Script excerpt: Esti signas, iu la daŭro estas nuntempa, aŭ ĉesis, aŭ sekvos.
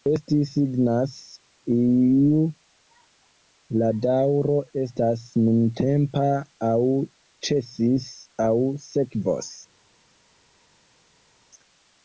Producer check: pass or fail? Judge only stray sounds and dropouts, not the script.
pass